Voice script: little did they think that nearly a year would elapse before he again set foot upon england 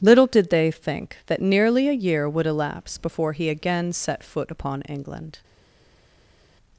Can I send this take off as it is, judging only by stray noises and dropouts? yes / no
yes